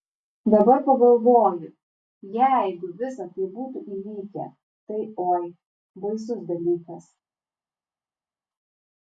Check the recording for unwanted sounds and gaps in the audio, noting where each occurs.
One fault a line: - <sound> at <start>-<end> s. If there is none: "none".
none